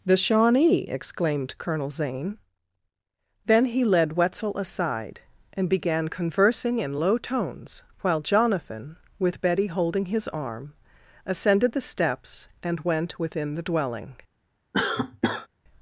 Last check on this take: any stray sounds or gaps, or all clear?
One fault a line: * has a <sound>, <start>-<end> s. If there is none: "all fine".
* has a cough, 14.7-15.5 s